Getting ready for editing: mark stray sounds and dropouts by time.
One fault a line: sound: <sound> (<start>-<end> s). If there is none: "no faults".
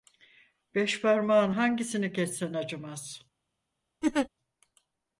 sound: laugh (4.0-4.3 s)